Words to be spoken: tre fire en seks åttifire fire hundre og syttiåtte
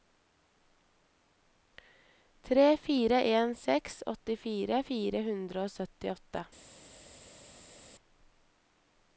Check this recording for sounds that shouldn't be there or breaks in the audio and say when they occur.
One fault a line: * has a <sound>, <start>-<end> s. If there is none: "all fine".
all fine